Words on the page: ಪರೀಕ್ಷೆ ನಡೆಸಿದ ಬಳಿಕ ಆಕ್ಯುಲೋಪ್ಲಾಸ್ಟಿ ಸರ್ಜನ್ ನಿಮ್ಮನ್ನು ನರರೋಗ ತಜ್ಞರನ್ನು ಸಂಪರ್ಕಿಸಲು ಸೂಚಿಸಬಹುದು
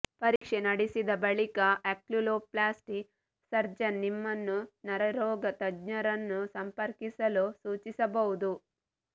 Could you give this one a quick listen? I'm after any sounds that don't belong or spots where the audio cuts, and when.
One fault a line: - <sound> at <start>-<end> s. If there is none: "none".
- dropout at 0.4-0.4 s